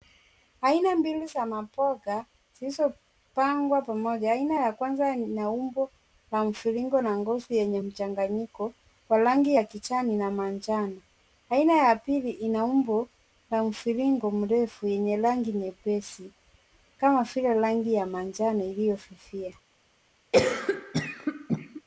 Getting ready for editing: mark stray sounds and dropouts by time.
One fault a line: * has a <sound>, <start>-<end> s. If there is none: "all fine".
* has a cough, 20.3-21.8 s